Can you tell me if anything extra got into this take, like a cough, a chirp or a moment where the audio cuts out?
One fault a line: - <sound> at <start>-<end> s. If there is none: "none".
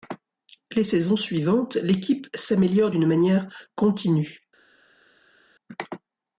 none